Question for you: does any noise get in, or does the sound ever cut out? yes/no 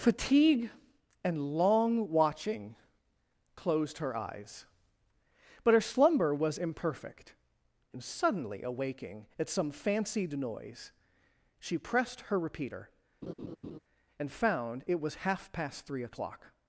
yes